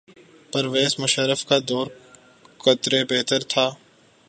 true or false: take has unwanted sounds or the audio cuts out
false